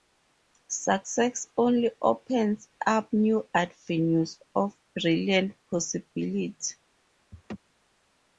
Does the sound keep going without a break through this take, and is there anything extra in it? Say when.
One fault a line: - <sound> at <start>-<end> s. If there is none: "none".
- laugh at 7.3-7.6 s